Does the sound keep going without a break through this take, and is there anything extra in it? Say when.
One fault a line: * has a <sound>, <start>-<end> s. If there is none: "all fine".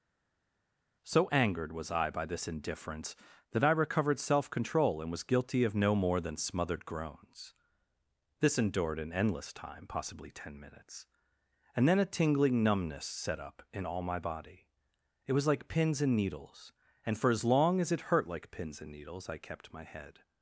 all fine